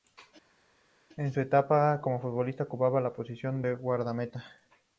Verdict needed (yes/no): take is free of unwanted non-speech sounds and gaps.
yes